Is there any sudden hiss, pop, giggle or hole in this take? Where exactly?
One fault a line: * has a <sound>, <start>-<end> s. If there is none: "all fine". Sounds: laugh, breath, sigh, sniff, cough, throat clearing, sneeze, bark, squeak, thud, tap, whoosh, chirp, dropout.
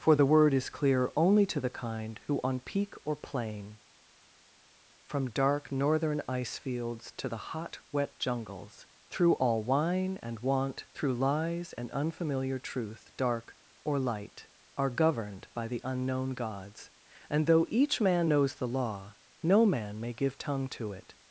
all fine